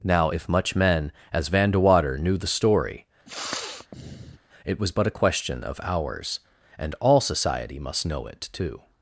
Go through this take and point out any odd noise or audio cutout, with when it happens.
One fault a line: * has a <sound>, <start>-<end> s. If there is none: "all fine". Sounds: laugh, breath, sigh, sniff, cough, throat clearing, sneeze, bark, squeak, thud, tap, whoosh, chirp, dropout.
* has a sniff, 3.3-4.4 s